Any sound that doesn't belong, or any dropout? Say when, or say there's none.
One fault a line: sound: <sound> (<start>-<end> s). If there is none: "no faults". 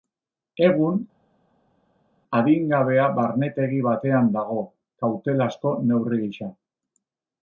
no faults